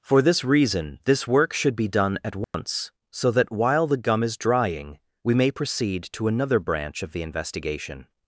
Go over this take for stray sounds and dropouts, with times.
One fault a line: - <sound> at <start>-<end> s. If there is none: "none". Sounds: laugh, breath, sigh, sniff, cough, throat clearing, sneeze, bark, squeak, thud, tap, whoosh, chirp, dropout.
- dropout at 2.4-2.5 s